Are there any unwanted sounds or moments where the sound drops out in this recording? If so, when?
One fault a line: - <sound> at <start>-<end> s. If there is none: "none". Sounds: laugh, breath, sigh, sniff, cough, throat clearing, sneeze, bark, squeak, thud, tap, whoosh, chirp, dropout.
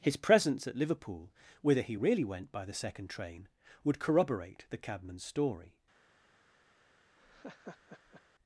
- laugh at 7.2-8.2 s